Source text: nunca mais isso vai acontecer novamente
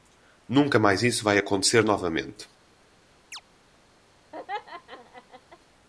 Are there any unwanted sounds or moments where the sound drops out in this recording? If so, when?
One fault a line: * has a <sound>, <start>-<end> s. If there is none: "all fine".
* has a chirp, 3.3-3.4 s
* has a laugh, 4.3-5.6 s